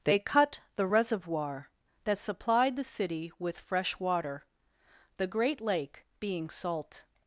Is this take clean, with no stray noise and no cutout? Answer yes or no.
yes